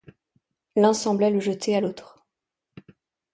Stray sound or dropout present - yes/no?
no